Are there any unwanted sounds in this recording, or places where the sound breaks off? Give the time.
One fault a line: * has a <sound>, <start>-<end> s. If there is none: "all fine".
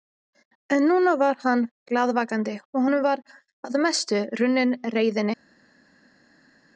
all fine